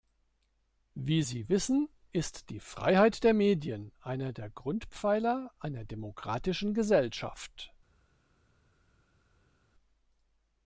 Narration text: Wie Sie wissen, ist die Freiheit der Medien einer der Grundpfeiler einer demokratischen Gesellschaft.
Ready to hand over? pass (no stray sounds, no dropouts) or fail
pass